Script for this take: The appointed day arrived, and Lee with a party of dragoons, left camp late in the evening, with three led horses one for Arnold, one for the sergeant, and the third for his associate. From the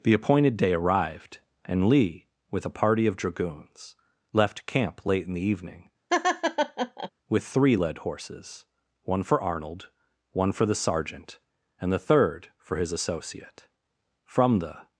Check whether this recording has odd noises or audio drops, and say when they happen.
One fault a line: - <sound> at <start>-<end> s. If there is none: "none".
- laugh at 6.1-7.1 s